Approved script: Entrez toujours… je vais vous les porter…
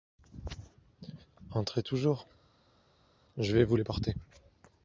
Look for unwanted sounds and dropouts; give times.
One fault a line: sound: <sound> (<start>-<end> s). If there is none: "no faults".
no faults